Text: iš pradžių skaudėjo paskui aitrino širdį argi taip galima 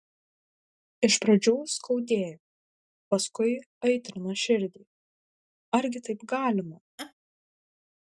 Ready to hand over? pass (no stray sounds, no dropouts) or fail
fail